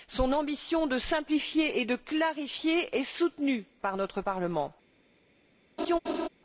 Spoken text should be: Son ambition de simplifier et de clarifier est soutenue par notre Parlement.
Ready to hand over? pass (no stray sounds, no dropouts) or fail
fail